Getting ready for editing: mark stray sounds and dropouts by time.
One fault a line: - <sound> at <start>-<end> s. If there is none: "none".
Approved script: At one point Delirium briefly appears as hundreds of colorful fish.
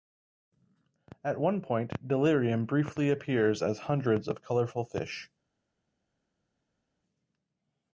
none